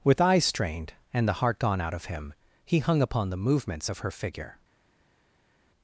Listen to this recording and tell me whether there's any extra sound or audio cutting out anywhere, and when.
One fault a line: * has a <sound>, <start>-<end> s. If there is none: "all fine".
all fine